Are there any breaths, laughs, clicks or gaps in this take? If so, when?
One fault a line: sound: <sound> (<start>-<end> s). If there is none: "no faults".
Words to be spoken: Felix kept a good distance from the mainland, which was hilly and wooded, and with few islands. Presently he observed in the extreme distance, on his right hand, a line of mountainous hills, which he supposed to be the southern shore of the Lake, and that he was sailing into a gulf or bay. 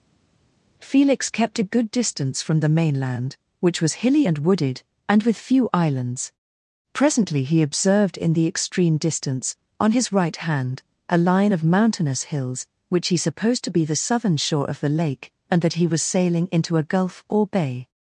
no faults